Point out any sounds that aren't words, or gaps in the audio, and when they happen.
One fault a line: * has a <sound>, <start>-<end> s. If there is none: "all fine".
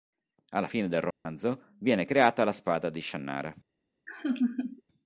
* has a dropout, 1.1-1.3 s
* has a laugh, 4.1-4.8 s